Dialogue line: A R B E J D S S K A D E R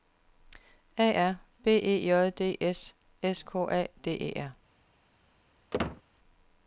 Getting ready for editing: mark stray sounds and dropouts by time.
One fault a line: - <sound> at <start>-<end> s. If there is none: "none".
- squeak at 5.7-6.0 s